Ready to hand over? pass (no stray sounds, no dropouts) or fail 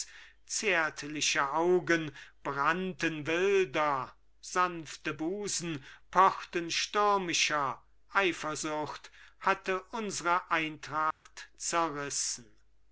fail